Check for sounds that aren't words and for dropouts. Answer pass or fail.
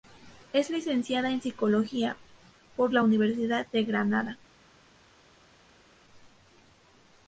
pass